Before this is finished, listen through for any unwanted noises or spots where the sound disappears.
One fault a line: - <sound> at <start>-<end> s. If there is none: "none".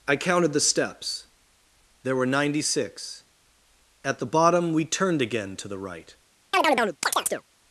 - chirp at 6.5-7.4 s